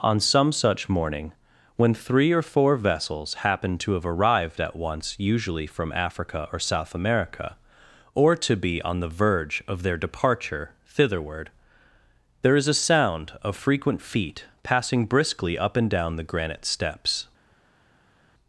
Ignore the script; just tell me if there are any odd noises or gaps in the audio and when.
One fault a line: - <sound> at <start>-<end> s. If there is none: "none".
none